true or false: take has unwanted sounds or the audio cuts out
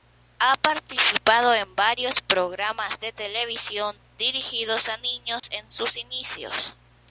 true